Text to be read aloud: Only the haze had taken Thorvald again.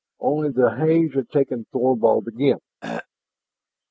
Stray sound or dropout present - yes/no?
yes